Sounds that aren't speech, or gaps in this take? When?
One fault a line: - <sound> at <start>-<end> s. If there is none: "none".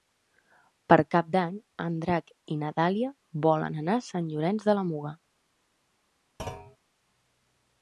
- thud at 6.4-6.8 s